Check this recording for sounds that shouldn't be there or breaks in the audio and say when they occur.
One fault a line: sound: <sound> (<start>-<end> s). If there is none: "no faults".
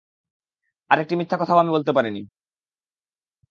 no faults